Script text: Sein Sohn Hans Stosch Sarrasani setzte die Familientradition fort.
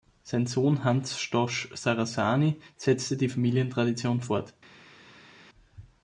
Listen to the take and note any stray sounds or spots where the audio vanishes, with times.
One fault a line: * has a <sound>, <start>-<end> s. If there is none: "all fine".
all fine